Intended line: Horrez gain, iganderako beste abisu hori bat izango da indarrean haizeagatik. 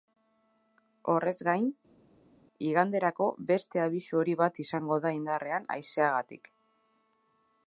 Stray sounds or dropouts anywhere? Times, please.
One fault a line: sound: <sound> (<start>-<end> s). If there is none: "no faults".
no faults